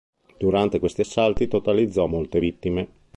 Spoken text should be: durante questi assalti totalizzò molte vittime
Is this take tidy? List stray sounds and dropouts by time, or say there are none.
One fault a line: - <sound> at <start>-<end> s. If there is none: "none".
none